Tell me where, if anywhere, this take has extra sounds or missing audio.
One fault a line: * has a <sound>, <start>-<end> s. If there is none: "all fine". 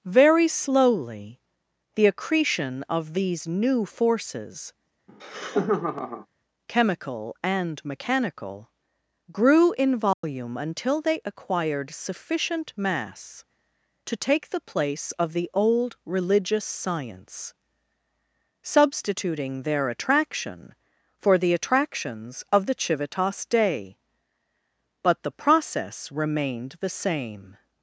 * has a laugh, 5.1-6.3 s
* has a dropout, 10.1-10.2 s